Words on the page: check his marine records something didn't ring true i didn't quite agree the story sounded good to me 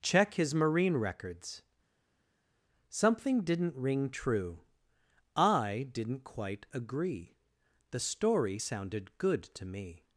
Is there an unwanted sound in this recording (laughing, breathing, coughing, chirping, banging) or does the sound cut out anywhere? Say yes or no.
no